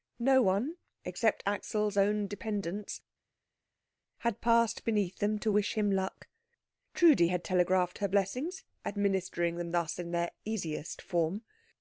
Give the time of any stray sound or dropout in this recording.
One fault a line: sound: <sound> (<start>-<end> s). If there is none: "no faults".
no faults